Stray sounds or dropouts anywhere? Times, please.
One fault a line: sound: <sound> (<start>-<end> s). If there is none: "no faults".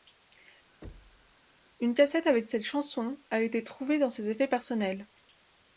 sound: thud (0.8-1.3 s)